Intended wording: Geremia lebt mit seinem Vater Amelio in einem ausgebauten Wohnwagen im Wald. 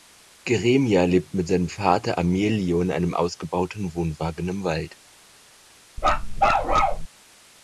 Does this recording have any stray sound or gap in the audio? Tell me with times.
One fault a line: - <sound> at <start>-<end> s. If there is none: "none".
- bark at 6.0-7.1 s